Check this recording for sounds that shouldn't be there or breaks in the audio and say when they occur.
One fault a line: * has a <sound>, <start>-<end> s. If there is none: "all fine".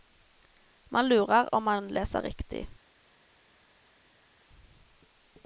all fine